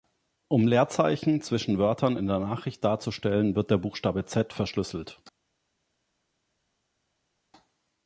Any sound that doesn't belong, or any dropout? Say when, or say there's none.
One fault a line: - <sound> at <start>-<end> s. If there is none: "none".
none